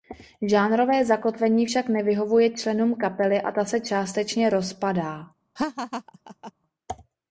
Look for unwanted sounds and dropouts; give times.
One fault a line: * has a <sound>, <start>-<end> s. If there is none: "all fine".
* has a laugh, 5.6-6.5 s